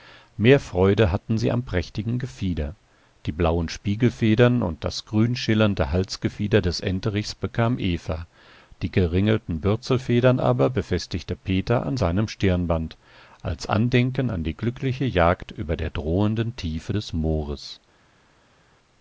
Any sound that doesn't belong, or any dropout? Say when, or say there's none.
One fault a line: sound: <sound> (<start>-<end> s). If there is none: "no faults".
no faults